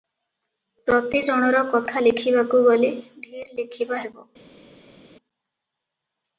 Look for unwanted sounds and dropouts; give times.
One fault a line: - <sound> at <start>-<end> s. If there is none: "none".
none